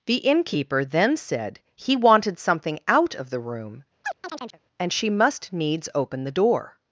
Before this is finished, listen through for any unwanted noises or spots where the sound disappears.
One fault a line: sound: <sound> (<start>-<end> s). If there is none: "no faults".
sound: chirp (4.0-4.6 s)